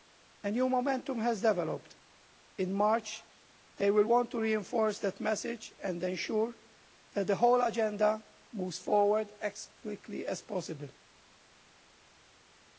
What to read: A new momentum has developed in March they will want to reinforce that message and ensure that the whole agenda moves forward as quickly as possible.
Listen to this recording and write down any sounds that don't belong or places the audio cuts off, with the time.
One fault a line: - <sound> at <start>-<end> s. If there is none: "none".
none